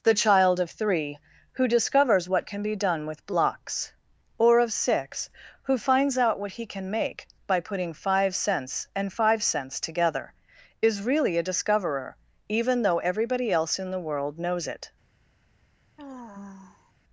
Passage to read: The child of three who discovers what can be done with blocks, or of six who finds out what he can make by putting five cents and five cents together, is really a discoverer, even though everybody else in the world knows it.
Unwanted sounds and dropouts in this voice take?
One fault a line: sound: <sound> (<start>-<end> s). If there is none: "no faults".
sound: sigh (16.0-16.9 s)